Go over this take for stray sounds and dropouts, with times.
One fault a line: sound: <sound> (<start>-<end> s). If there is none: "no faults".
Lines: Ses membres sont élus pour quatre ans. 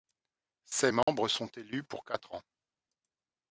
sound: dropout (1.0-1.1 s)